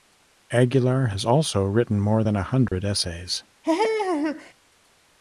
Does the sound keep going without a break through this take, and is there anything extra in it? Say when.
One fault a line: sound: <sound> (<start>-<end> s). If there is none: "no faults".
sound: dropout (2.7-2.7 s)
sound: laugh (3.6-4.5 s)